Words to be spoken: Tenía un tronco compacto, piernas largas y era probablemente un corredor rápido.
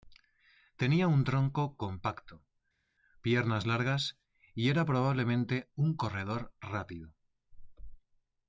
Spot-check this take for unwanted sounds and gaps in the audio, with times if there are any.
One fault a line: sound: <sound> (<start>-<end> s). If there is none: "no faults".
no faults